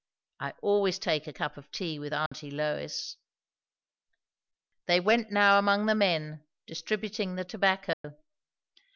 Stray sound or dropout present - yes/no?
yes